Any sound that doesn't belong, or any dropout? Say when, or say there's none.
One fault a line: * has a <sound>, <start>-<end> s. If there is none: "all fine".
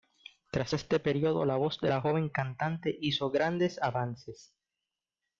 all fine